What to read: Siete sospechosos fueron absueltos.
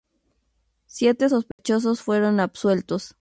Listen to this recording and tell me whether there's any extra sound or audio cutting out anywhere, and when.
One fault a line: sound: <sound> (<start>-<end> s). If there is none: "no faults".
sound: dropout (1.5-1.6 s)